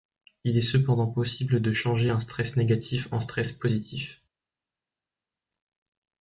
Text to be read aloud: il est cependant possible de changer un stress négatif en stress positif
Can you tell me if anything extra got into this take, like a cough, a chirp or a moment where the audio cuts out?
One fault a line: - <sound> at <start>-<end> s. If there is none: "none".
none